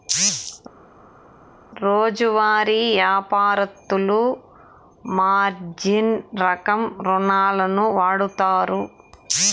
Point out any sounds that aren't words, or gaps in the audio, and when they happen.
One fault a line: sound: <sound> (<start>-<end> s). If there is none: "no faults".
no faults